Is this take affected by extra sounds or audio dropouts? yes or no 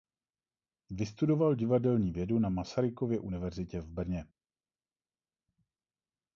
no